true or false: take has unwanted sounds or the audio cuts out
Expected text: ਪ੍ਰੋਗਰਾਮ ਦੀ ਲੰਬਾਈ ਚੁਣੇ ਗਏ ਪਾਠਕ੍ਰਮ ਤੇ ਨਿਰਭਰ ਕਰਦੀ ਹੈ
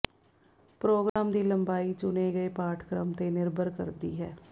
true